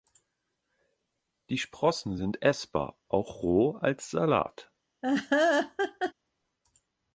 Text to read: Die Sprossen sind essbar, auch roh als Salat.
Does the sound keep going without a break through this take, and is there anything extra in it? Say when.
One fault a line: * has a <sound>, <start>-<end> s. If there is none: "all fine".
* has a laugh, 5.0-6.1 s